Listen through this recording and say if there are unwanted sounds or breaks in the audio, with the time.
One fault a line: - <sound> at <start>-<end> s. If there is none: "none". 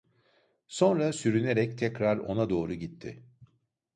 none